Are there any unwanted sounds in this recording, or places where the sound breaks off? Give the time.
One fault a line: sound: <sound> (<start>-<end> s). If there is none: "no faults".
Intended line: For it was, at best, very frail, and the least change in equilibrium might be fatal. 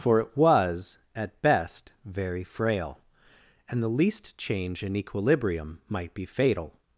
no faults